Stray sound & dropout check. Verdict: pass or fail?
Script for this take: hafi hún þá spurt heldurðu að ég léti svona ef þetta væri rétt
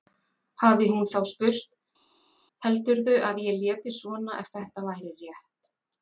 pass